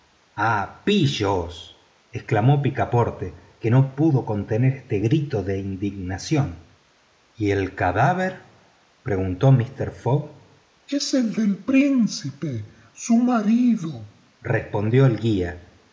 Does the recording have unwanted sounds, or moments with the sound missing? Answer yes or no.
no